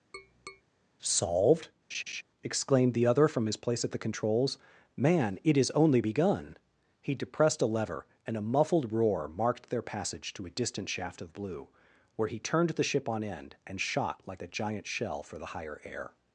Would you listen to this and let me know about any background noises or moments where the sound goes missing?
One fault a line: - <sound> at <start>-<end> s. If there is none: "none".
- tap at 0.1-0.6 s
- laugh at 1.9-2.2 s